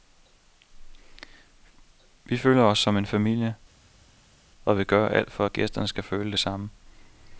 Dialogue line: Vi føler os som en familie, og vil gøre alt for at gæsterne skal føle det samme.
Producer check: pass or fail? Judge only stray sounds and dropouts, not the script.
pass